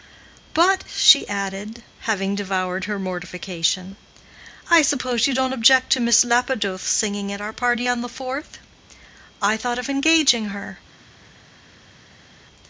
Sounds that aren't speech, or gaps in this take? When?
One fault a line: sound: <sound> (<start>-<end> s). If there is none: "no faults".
no faults